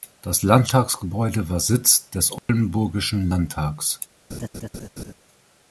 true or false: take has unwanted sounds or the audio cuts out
true